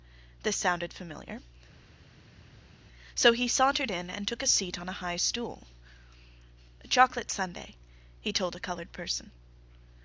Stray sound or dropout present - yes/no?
no